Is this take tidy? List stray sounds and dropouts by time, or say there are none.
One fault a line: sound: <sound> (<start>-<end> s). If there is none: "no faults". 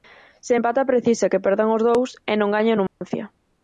sound: dropout (2.9-3.0 s)